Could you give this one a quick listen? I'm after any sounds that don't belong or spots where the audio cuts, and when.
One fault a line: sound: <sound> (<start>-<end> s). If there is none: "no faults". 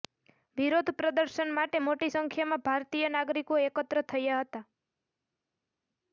no faults